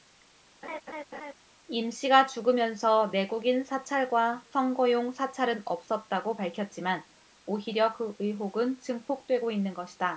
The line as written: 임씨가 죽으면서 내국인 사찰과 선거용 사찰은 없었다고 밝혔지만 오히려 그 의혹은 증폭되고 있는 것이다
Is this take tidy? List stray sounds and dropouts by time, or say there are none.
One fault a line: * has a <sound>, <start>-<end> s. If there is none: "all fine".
* has a laugh, 0.6-1.3 s